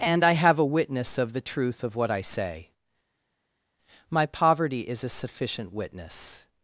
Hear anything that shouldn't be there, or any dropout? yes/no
no